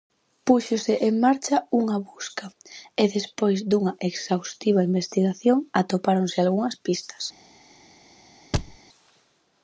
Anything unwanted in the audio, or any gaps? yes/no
yes